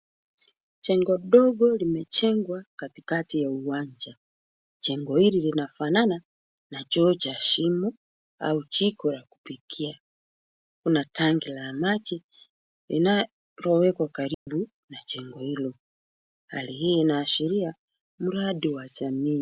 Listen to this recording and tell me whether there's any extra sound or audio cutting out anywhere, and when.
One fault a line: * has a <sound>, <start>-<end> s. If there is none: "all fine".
* has a dropout, 14.3-14.5 s